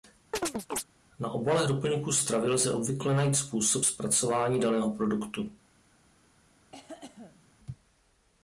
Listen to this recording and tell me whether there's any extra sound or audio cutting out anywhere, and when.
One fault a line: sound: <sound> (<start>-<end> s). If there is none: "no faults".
sound: chirp (0.3-0.8 s)
sound: cough (6.7-7.5 s)